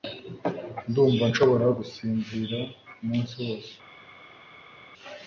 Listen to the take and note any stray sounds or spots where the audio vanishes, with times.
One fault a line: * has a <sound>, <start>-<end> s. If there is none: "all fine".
all fine